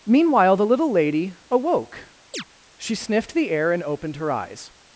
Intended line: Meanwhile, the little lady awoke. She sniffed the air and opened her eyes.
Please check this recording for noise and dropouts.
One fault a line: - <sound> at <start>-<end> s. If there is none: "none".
- chirp at 2.3-2.4 s